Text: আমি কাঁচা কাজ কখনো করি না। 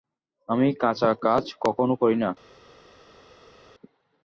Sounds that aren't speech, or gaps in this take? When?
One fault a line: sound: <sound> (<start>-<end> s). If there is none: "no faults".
no faults